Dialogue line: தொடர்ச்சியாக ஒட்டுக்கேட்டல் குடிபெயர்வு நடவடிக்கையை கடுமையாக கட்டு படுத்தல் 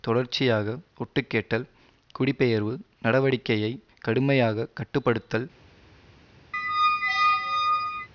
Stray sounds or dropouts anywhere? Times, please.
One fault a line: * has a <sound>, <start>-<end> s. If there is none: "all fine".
* has a squeak, 6.5-8.1 s